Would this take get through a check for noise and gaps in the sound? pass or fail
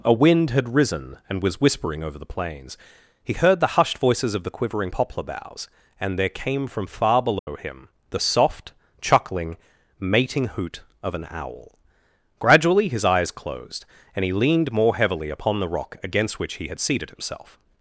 fail